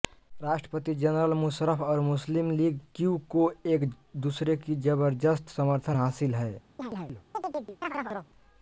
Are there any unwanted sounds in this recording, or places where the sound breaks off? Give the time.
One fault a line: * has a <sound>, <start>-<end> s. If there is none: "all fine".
* has a chirp, 6.8-8.3 s